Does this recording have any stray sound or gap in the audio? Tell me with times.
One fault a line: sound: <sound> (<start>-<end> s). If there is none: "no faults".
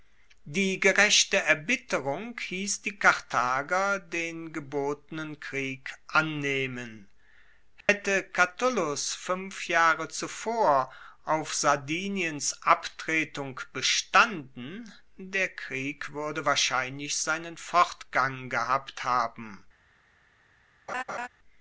sound: dropout (7.8-7.9 s)
sound: laugh (20.9-21.3 s)